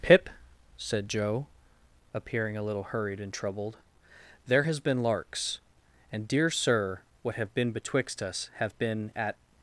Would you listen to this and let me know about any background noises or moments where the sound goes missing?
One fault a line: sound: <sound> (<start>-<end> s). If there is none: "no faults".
no faults